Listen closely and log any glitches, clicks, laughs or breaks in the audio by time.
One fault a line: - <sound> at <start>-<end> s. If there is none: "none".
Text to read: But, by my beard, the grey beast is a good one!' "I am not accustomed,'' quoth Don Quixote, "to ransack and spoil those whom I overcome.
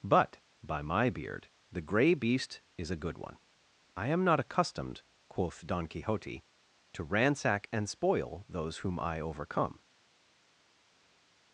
none